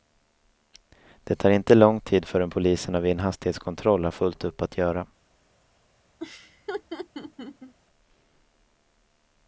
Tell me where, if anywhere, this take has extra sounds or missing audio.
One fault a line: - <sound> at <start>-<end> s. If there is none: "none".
- laugh at 6.2-7.7 s